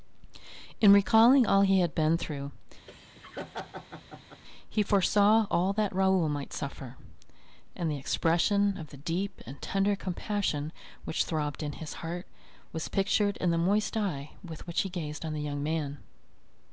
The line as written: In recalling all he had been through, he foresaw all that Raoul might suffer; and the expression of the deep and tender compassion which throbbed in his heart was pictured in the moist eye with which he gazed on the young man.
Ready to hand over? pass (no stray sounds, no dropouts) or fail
fail